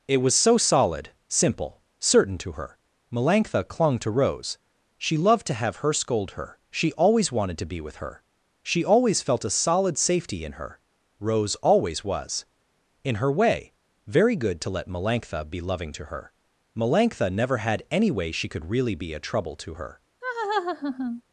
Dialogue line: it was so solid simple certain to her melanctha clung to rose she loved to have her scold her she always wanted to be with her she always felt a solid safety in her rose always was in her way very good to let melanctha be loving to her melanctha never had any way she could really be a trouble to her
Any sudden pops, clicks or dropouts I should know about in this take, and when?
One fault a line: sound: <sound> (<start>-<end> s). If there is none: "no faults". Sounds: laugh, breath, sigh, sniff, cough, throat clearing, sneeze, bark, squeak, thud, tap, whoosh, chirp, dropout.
sound: laugh (20.2-21.2 s)